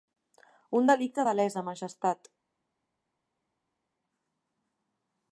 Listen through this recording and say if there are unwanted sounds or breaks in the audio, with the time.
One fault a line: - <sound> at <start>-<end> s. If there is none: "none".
none